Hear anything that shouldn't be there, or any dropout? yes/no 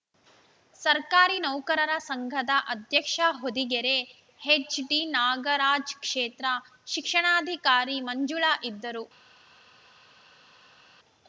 no